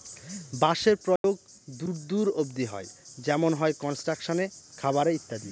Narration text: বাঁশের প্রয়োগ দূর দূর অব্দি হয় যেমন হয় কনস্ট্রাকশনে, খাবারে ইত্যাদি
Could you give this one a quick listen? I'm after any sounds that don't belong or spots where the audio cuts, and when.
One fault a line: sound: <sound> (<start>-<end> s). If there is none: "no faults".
sound: dropout (1.2-1.2 s)